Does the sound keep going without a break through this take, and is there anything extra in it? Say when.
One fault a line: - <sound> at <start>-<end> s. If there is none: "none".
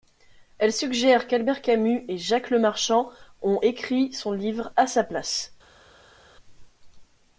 none